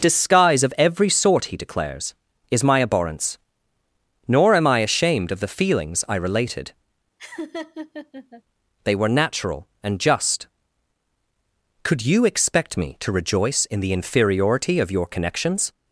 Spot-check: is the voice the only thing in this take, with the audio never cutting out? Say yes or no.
no